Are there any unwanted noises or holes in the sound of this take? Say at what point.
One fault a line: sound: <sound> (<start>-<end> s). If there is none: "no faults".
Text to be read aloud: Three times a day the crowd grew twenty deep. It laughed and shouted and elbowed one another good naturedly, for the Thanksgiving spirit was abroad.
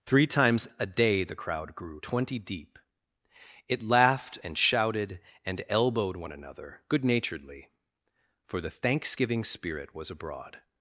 no faults